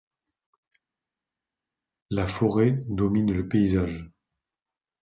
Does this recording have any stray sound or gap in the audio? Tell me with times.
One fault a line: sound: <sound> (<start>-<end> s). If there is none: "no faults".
no faults